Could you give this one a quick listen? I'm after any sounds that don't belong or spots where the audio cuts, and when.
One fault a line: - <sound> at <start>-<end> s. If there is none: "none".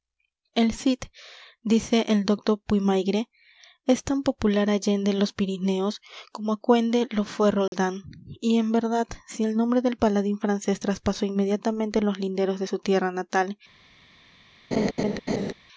- dropout at 7.7-7.7 s
- laugh at 14.7-15.5 s